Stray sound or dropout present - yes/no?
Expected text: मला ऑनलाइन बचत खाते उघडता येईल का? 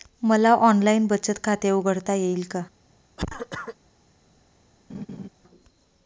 yes